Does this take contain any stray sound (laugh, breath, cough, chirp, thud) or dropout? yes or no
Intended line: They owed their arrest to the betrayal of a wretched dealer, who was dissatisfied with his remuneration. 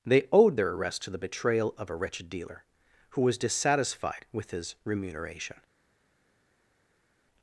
no